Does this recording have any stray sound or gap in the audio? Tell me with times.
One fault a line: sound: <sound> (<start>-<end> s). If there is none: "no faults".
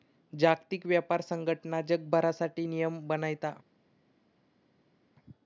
no faults